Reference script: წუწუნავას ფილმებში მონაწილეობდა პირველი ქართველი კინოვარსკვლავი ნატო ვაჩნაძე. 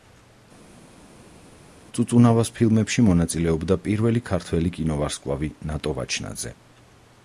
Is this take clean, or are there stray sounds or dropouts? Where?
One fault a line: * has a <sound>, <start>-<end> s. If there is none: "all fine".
all fine